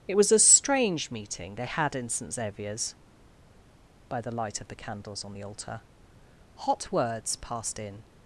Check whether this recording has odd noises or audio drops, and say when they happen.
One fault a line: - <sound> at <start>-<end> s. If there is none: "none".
none